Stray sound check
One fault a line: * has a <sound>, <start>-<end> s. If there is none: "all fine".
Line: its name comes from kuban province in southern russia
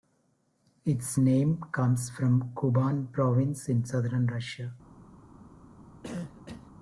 * has a cough, 6.0-6.7 s